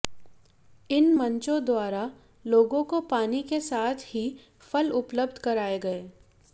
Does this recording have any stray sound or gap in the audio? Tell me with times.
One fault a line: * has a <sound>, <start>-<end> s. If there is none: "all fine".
all fine